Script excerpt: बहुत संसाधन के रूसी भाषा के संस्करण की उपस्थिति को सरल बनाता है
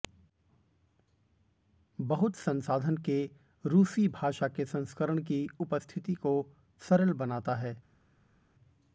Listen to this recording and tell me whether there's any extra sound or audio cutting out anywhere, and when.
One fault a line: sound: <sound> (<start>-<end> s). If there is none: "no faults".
no faults